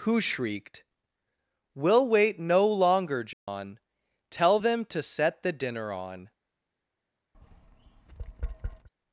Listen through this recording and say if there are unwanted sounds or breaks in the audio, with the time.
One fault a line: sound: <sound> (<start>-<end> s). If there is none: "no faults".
sound: dropout (3.3-3.5 s)
sound: tap (7.3-8.9 s)